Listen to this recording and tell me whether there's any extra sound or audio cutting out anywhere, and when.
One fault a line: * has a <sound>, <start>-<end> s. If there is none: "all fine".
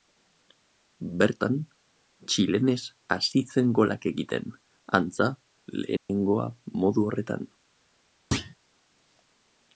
* has a dropout, 6.0-6.1 s
* has a thud, 8.3-8.6 s